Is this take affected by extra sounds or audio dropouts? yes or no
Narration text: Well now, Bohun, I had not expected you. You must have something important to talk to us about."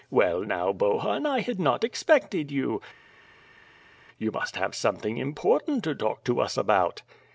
no